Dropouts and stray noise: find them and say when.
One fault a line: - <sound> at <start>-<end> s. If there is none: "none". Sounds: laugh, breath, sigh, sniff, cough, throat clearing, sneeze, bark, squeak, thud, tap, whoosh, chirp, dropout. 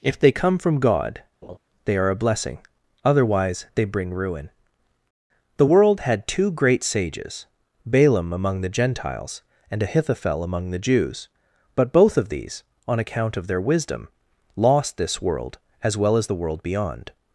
- laugh at 1.4-1.6 s